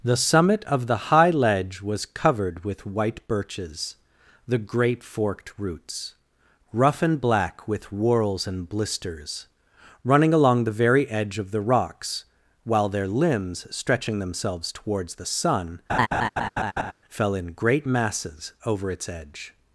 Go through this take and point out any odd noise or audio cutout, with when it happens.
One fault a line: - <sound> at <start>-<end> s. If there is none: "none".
- laugh at 15.9-16.9 s